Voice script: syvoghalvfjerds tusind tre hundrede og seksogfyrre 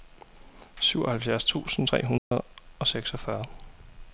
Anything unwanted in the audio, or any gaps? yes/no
yes